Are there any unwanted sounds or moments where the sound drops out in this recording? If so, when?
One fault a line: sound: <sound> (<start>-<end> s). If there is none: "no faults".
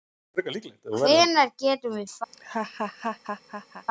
sound: laugh (2.3-3.9 s)